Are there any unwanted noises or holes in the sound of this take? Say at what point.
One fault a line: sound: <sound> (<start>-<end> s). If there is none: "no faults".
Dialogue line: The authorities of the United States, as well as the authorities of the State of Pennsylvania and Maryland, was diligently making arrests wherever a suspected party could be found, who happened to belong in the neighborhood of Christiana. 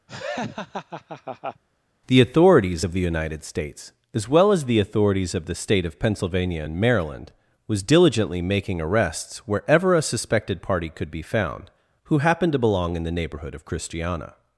sound: laugh (0.1-1.6 s)